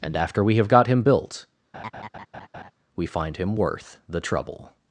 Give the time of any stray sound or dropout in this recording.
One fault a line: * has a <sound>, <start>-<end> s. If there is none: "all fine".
* has a laugh, 1.7-2.7 s